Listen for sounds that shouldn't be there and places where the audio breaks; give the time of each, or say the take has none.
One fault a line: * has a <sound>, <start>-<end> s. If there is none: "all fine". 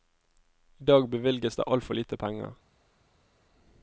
all fine